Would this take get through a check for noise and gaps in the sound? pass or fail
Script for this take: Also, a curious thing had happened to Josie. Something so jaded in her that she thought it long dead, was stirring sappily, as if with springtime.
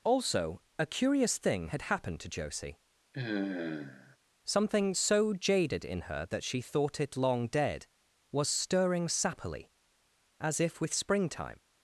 fail